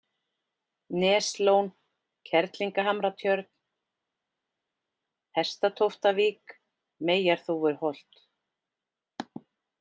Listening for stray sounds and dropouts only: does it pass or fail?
pass